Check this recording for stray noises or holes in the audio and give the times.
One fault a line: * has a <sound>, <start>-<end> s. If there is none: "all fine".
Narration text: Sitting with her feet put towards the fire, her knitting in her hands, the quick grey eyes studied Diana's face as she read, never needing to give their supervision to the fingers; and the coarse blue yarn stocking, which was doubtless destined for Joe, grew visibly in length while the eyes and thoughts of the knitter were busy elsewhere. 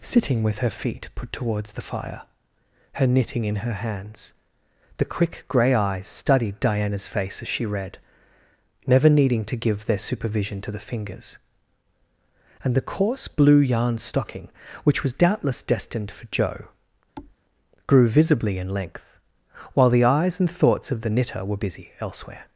* has a thud, 17.2-17.4 s